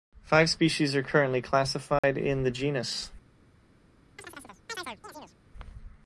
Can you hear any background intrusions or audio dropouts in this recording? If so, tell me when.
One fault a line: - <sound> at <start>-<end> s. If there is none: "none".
- dropout at 2.0-2.0 s
- chirp at 4.2-5.4 s